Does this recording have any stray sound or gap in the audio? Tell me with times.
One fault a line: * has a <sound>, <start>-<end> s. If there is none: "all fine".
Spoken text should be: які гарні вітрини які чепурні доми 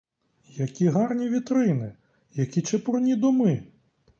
all fine